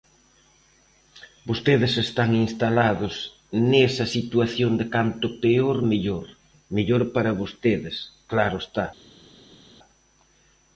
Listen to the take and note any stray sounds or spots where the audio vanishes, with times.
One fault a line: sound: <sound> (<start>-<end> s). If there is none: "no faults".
no faults